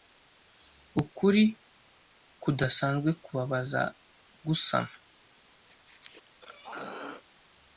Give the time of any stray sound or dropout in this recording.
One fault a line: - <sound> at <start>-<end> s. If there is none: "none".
- throat clearing at 5.7-7.2 s